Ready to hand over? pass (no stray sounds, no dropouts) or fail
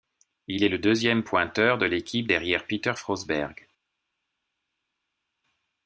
pass